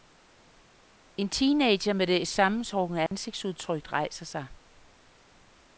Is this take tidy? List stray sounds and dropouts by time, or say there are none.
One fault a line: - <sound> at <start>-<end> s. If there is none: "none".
- dropout at 3.1-3.1 s